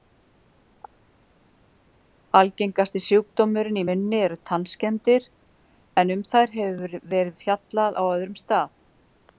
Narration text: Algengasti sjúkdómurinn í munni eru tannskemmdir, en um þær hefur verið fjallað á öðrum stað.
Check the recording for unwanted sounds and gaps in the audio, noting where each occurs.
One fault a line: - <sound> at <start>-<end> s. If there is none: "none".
none